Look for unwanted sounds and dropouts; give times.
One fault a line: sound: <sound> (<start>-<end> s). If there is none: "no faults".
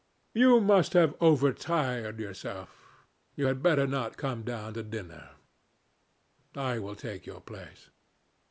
no faults